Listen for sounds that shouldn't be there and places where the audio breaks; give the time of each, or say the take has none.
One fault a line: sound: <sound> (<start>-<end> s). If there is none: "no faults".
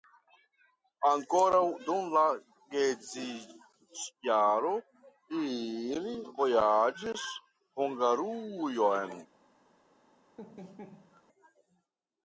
sound: laugh (10.4-11.2 s)